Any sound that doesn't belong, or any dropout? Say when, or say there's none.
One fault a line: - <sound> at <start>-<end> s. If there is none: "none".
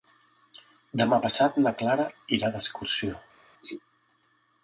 none